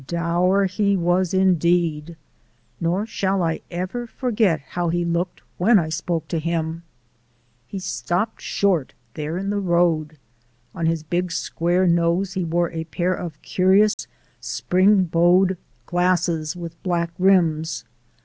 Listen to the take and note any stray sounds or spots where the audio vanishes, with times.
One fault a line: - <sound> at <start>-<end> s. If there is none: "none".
- dropout at 13.9-14.0 s